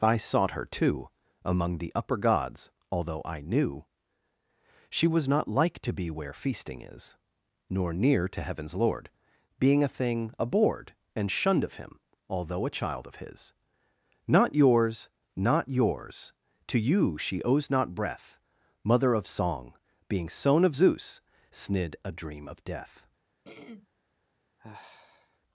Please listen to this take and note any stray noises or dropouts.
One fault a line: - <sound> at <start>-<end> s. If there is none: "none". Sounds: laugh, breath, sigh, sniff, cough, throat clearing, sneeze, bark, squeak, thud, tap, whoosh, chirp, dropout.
- throat clearing at 23.4-23.9 s
- sigh at 24.6-25.4 s